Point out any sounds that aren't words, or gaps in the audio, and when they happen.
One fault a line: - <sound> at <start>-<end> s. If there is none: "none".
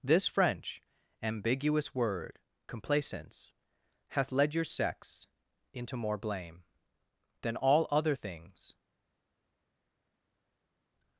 none